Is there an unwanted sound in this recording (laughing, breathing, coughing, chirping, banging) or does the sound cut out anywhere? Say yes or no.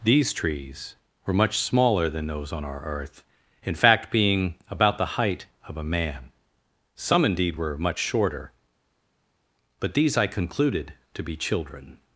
no